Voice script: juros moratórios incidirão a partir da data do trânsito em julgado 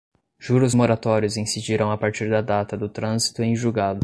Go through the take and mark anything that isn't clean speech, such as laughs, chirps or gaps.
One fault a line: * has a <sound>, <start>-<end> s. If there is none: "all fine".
all fine